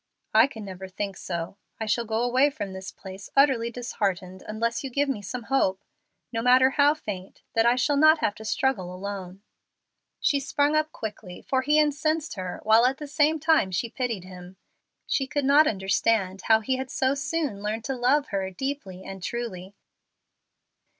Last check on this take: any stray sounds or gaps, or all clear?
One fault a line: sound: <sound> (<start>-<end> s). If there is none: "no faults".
no faults